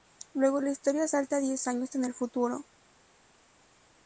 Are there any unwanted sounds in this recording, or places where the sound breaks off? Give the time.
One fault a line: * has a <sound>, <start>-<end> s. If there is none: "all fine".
all fine